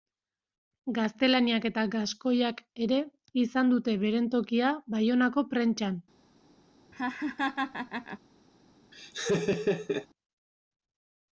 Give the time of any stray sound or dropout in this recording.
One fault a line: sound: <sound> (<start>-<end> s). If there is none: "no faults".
sound: laugh (6.9-8.2 s)
sound: laugh (8.9-10.1 s)